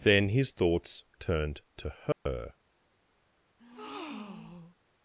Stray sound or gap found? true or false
true